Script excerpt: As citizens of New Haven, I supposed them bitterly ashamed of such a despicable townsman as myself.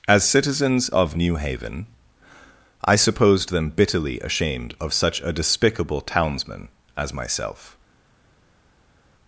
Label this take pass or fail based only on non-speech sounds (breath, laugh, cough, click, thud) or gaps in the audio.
pass